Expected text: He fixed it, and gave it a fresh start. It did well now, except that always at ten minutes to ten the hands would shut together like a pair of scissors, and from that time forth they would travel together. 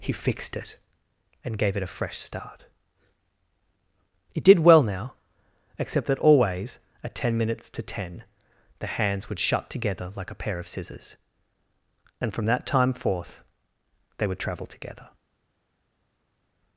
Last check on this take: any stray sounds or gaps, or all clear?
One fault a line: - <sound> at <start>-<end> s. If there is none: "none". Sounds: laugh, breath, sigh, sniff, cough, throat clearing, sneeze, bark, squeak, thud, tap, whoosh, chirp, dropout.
none